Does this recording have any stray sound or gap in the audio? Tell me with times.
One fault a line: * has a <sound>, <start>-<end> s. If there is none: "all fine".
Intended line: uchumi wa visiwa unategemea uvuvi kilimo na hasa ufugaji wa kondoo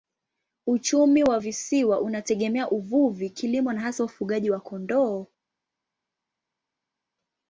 all fine